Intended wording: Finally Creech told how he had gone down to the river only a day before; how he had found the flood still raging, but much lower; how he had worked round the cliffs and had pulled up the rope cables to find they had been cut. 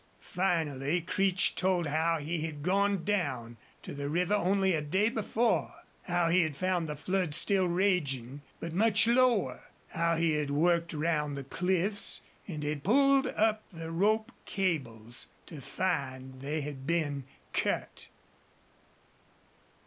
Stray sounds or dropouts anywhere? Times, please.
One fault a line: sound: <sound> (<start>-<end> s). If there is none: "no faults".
no faults